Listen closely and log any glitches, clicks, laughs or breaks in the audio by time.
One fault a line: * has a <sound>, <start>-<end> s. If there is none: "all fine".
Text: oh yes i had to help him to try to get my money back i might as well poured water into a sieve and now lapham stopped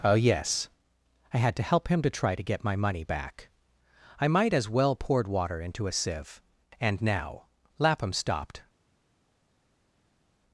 all fine